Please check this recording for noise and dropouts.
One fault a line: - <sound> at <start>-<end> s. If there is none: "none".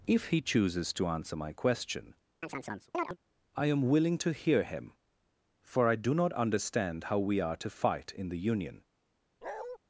- chirp at 2.4-3.2 s
- bark at 9.4-9.8 s